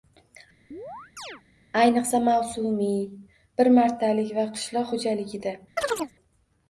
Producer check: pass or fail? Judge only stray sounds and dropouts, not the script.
fail